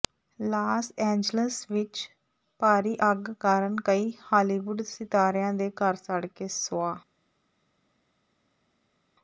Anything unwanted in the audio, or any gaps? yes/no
no